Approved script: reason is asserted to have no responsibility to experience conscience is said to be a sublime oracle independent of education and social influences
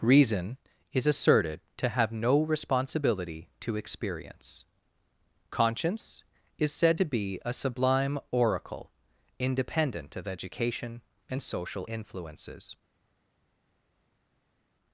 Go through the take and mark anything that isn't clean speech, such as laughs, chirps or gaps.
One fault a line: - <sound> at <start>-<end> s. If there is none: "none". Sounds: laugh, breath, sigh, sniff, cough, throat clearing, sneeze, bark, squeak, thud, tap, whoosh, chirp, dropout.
none